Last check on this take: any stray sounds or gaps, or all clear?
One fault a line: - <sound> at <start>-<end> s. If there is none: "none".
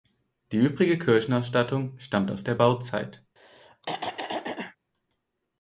- throat clearing at 3.4-4.8 s